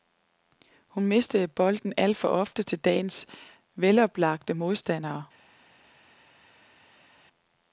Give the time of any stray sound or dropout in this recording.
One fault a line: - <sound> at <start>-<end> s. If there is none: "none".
none